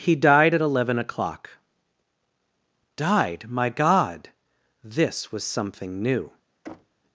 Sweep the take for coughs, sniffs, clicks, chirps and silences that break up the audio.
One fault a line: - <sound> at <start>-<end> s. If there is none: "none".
- thud at 6.6-7.0 s